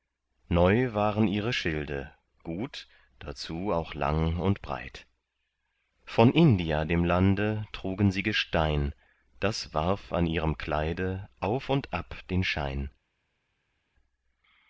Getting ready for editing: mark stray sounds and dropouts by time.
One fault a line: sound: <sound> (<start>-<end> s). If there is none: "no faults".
no faults